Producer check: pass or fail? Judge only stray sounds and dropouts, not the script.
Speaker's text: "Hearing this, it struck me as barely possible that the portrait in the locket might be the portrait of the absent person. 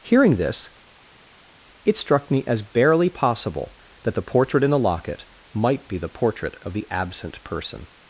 pass